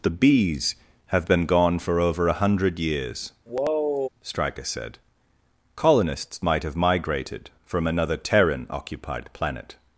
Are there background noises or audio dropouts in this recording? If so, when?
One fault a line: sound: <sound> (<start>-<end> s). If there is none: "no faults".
sound: sigh (3.5-4.1 s)